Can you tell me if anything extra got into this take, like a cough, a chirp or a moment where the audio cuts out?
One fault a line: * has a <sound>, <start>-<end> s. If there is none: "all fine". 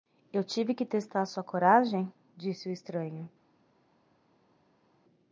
all fine